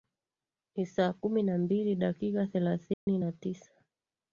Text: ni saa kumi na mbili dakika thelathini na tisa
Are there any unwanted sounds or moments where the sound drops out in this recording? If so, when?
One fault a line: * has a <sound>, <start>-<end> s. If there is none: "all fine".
* has a dropout, 2.9-3.1 s